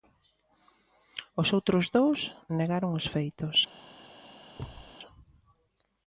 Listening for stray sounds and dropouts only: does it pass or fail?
fail